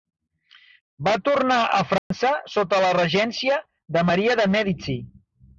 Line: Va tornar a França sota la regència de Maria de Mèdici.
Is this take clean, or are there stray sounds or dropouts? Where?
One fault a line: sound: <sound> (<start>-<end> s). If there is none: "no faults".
sound: dropout (2.0-2.1 s)